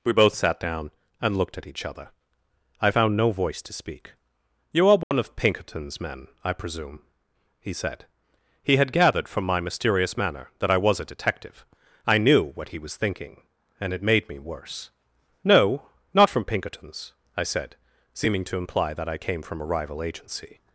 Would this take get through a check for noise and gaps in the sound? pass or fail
fail